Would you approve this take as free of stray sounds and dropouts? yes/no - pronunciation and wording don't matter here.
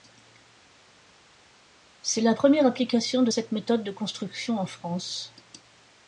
yes